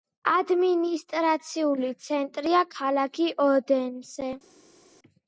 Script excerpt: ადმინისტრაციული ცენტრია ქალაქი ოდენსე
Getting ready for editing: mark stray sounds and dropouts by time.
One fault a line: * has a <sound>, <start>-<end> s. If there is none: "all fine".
all fine